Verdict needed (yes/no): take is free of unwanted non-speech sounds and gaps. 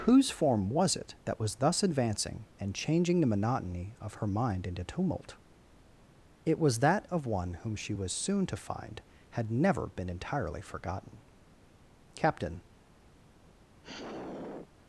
no